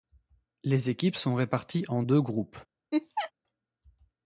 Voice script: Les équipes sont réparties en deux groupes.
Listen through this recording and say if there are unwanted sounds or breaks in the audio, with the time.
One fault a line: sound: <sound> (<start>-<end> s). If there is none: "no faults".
sound: laugh (2.9-3.3 s)